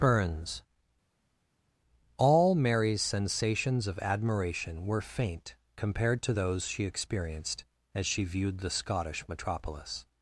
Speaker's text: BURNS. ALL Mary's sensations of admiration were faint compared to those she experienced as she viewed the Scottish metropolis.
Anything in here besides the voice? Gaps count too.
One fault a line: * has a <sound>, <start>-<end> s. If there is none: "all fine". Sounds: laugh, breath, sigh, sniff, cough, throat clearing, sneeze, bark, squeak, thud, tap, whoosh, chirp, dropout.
all fine